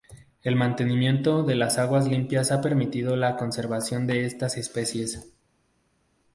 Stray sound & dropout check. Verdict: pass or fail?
pass